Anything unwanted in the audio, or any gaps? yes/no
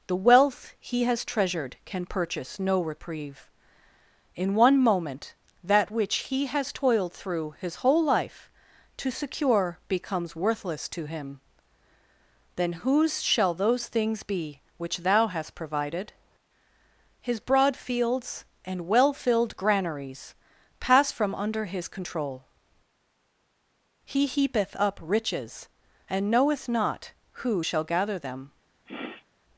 yes